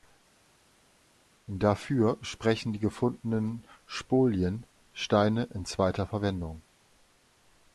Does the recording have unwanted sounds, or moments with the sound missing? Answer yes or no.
no